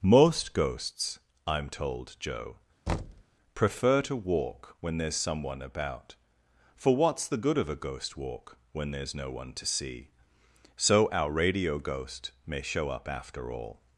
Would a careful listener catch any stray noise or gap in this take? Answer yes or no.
yes